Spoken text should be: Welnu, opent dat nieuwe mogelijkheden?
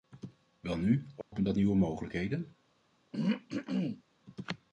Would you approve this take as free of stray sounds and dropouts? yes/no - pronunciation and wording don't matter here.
no